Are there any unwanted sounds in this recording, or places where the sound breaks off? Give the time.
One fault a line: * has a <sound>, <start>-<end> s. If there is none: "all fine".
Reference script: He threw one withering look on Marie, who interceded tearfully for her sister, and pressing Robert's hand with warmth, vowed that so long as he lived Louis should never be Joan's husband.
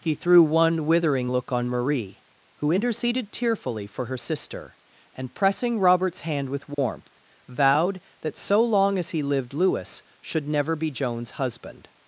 * has a dropout, 6.7-6.8 s